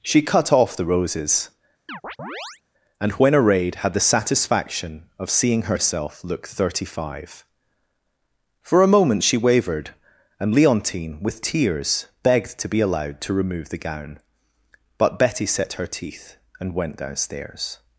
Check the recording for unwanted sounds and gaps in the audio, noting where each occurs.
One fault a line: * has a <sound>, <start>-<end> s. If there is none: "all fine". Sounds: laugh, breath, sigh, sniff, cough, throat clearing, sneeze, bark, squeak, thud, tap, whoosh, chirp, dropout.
* has a chirp, 1.9-2.6 s